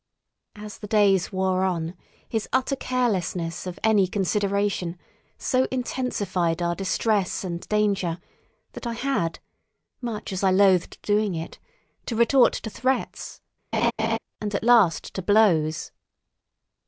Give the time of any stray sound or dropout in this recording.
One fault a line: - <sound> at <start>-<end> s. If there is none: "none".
- laugh at 13.7-14.2 s